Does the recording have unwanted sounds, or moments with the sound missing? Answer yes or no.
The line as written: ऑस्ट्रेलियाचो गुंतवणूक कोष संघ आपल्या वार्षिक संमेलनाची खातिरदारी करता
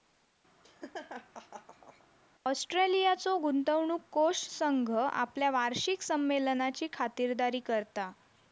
yes